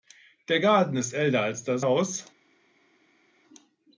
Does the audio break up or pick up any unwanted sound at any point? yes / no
no